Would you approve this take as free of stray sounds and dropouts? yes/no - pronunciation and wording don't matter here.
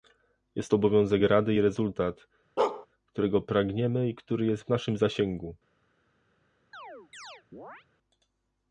no